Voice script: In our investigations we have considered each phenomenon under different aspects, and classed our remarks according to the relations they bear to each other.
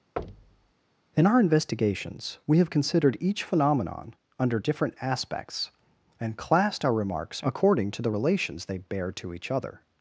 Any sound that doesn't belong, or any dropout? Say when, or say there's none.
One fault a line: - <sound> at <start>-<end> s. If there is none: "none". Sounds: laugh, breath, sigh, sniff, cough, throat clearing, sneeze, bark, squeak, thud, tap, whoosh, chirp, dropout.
- thud at 0.2-0.7 s